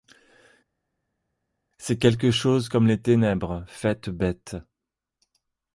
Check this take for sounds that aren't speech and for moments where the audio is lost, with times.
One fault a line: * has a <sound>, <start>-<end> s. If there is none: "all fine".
all fine